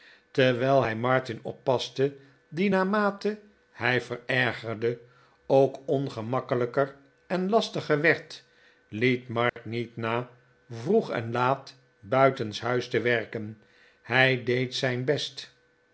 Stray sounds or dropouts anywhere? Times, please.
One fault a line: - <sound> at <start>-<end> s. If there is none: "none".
- dropout at 9.5-9.6 s